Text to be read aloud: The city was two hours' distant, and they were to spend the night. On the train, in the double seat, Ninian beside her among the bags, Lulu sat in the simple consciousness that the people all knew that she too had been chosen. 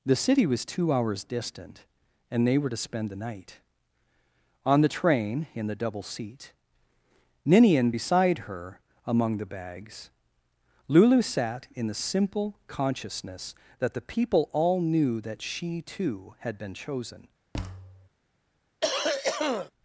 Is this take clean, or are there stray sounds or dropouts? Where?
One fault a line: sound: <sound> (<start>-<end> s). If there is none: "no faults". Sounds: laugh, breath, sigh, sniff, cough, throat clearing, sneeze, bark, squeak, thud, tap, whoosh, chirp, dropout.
sound: thud (17.5-18.1 s)
sound: cough (18.8-19.7 s)